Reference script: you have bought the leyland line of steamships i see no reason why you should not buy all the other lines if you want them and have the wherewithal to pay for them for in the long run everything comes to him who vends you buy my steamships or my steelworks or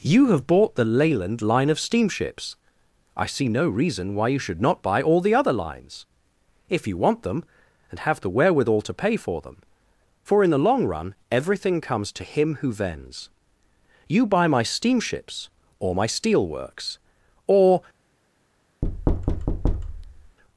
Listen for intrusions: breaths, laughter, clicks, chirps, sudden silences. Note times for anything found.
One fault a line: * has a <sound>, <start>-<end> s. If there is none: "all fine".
* has a thud, 18.8-20.4 s